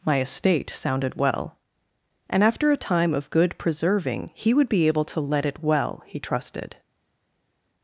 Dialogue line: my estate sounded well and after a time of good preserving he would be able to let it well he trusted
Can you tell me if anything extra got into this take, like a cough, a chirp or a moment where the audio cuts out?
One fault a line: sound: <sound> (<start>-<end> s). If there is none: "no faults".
no faults